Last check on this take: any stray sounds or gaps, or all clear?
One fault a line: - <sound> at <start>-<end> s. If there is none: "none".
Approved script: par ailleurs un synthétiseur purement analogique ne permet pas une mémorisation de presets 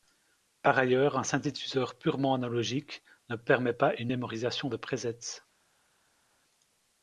none